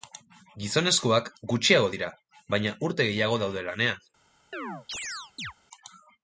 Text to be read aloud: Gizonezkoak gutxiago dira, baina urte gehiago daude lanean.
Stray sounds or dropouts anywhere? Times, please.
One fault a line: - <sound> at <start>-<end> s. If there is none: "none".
- chirp at 4.5-5.5 s